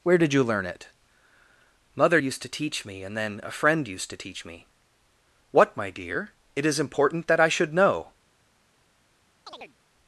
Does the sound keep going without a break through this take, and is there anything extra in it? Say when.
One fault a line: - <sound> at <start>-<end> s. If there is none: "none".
- chirp at 9.5-9.8 s